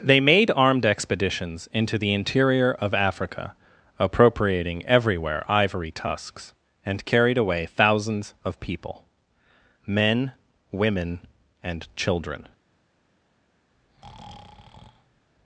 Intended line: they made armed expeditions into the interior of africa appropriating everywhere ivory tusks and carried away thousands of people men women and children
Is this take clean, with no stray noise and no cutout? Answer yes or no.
no